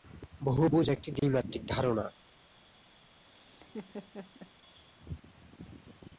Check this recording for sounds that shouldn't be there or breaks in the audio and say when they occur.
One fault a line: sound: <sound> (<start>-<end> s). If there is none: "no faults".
sound: laugh (3.3-4.5 s)